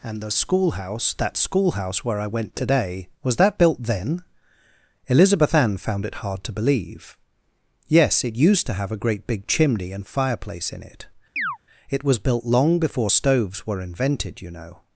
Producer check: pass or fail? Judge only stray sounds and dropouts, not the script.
fail